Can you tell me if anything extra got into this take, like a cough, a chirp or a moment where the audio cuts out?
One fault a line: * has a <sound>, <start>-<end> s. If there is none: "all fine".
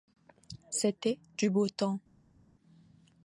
all fine